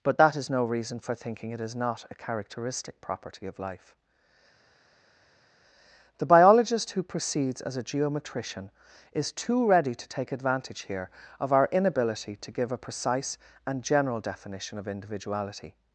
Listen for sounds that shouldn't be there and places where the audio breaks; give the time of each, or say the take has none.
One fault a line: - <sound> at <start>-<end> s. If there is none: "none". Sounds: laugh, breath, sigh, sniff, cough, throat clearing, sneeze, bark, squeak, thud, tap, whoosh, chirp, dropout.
none